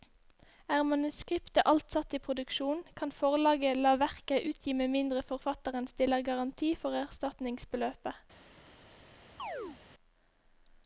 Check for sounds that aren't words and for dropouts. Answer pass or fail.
fail